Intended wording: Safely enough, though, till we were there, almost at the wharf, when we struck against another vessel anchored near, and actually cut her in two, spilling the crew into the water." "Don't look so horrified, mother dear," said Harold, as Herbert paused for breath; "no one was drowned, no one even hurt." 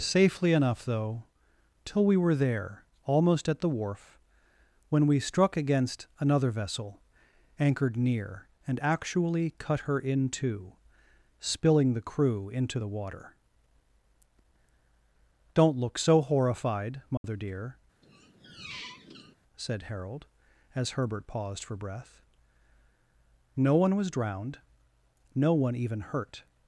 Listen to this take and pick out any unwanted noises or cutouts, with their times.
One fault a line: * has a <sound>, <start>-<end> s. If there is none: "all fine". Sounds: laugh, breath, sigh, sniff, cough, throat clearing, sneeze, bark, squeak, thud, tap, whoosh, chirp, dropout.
* has a dropout, 17.2-17.2 s
* has a squeak, 18.0-19.4 s